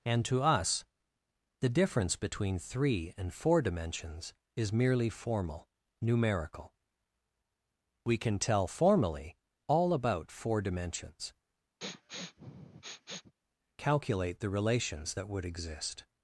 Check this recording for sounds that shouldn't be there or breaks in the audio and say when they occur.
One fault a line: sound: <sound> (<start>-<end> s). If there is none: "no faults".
sound: sniff (11.8-13.3 s)